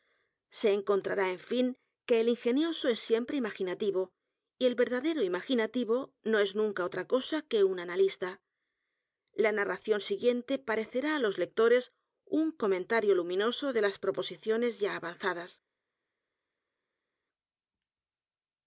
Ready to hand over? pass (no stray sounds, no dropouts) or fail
pass